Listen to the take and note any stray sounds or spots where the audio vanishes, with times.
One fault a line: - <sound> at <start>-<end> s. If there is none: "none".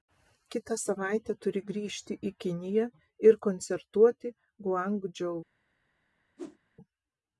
- whoosh at 6.4-6.6 s